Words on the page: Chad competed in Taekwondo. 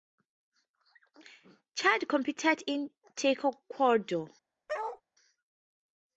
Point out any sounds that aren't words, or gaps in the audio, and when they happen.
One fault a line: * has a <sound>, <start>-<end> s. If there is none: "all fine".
* has a bark, 4.7-5.0 s